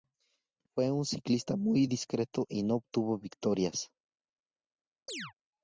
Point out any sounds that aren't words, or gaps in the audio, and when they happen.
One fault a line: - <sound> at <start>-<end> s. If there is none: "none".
- chirp at 5.1-5.3 s